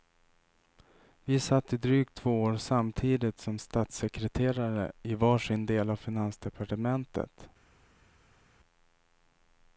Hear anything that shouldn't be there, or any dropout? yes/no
no